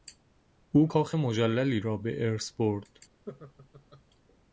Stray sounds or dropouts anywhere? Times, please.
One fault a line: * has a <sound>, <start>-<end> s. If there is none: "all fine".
* has a laugh, 3.3-4.0 s